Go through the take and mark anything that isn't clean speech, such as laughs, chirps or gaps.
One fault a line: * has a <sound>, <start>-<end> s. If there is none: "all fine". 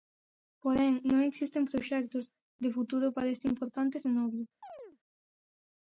* has a chirp, 4.6-5.0 s